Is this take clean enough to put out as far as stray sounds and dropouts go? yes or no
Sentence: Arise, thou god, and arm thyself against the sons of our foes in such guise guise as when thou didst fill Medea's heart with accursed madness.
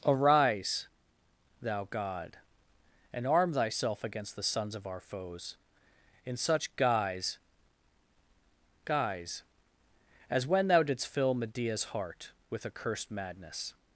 yes